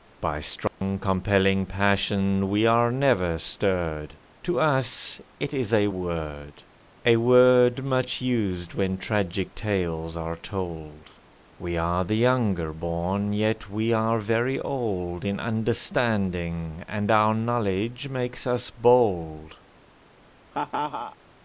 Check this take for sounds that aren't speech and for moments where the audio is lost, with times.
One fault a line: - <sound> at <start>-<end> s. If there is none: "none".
- dropout at 0.7-0.8 s
- laugh at 20.5-21.2 s